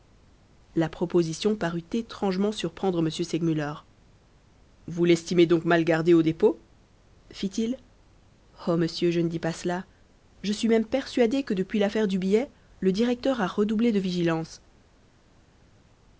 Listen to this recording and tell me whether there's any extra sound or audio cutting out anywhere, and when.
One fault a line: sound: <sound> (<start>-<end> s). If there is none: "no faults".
no faults